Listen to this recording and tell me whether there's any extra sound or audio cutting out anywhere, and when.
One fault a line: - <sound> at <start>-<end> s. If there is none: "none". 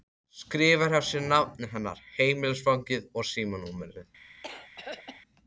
- throat clearing at 4.4-5.2 s